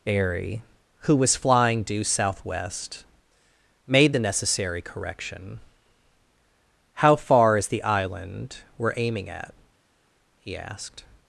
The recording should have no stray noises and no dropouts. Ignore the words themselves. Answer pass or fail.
pass